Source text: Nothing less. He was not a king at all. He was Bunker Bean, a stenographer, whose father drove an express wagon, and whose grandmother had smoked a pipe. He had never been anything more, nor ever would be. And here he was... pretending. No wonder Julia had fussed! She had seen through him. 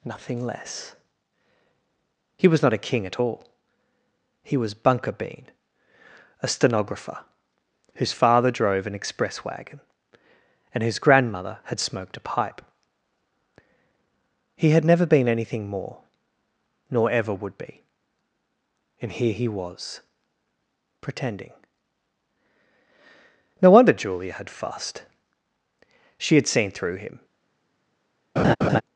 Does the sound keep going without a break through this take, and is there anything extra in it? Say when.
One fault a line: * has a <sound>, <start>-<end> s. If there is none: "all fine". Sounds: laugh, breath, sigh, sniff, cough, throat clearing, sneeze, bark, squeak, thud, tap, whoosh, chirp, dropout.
* has a laugh, 28.4-28.8 s